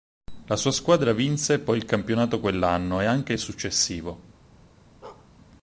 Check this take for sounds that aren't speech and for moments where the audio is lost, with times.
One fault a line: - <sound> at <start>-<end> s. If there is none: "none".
- bark at 5.0-5.3 s